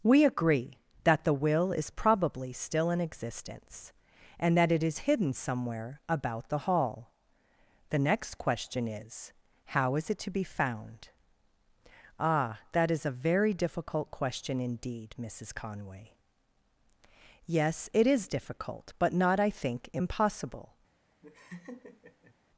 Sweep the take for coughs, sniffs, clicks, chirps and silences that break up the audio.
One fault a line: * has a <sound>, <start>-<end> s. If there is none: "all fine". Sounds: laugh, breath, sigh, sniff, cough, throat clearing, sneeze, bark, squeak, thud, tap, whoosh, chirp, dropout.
* has a laugh, 21.2-22.4 s